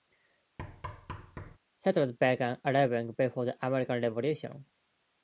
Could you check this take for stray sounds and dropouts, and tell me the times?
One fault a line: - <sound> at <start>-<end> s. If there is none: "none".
- thud at 0.6-1.6 s